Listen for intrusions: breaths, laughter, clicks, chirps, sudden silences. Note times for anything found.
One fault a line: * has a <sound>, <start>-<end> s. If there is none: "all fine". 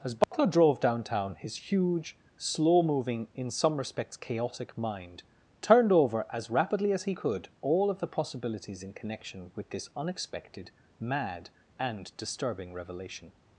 * has a dropout, 0.2-0.3 s